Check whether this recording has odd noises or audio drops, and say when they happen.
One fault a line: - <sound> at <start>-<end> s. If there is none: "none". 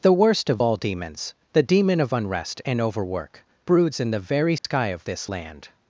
- dropout at 4.6-4.6 s